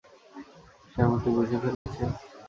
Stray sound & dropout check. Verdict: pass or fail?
fail